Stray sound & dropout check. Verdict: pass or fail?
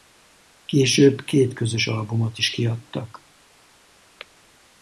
pass